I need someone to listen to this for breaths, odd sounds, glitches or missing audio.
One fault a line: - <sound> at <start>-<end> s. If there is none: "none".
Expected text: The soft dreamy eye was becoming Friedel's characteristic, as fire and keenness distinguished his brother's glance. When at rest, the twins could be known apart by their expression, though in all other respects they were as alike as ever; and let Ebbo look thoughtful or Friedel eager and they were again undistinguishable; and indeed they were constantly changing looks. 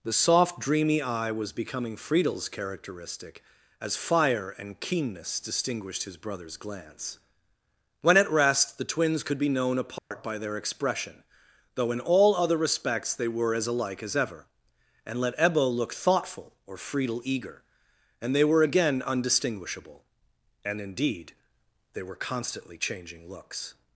- dropout at 10.0-10.1 s